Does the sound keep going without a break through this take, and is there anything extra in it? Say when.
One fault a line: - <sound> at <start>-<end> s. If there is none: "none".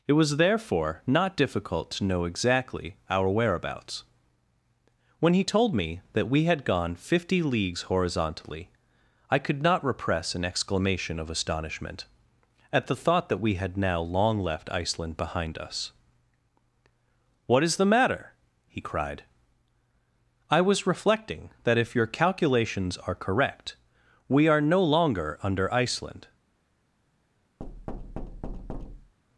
- thud at 27.6-29.1 s